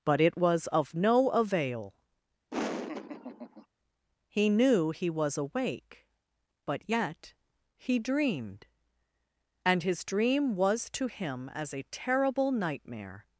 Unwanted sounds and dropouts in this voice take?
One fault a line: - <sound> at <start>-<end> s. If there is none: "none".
- laugh at 2.5-3.7 s